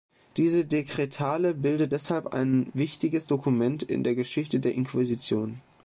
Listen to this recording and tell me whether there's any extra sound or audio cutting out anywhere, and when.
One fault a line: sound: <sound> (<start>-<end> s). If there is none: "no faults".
no faults